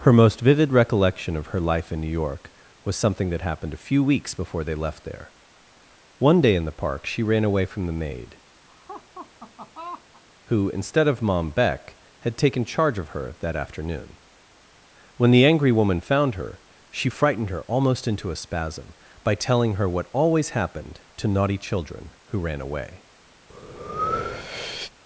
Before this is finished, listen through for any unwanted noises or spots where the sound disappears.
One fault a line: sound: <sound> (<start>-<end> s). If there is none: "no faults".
sound: laugh (8.7-10.2 s)
sound: breath (23.5-24.9 s)